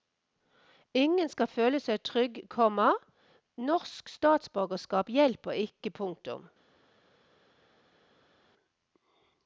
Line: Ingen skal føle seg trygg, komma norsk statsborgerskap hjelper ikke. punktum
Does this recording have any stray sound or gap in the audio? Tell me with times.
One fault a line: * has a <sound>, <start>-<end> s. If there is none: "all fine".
all fine